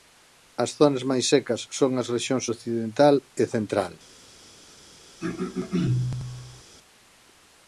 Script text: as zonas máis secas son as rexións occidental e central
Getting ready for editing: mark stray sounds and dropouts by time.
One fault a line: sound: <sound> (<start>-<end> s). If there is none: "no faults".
sound: throat clearing (5.2-6.6 s)